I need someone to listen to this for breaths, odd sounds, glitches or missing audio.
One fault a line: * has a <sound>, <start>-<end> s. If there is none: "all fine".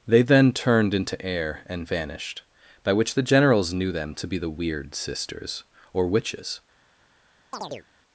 * has a chirp, 7.5-7.9 s